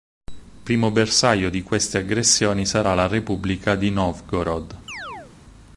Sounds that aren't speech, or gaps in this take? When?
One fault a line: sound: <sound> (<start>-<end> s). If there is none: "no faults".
sound: chirp (4.9-5.3 s)